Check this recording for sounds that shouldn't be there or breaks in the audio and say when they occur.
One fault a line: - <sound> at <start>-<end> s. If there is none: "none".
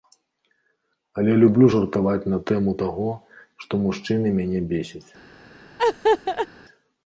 - laugh at 5.8-6.5 s